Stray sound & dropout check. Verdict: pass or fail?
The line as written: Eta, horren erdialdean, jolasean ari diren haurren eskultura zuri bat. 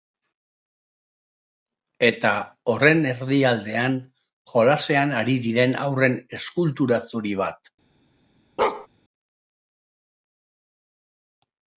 fail